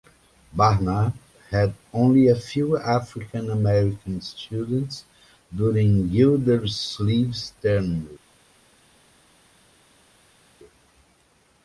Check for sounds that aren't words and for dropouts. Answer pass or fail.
pass